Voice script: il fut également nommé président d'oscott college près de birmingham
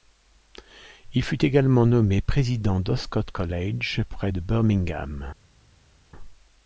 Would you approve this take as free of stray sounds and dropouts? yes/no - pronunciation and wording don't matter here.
yes